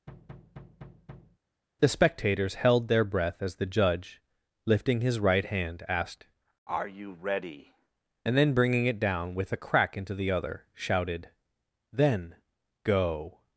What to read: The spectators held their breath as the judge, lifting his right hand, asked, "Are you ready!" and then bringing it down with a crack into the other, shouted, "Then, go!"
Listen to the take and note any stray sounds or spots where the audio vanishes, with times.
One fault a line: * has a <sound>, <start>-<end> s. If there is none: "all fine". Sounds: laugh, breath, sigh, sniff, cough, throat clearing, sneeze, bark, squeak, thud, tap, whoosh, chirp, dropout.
* has a thud, 0.1-1.4 s